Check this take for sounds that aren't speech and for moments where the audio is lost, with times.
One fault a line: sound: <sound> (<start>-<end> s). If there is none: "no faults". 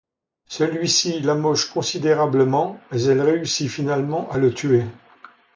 no faults